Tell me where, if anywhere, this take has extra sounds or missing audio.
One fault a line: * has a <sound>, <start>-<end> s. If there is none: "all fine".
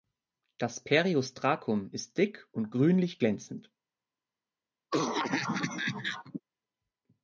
* has a cough, 4.9-6.4 s